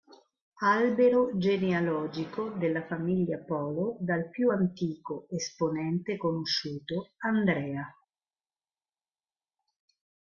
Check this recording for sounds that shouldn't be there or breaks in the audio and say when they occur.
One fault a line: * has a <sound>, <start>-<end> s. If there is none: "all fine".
all fine